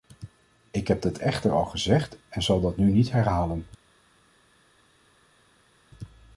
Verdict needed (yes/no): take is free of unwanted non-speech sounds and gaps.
yes